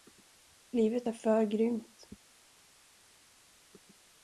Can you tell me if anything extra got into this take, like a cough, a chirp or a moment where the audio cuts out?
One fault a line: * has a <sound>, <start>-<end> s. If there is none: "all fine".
all fine